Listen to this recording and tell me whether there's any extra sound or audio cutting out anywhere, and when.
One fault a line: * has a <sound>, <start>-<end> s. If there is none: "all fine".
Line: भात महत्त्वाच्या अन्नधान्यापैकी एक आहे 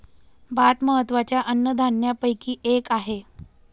all fine